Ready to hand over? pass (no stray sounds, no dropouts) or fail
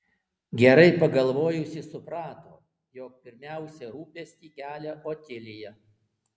pass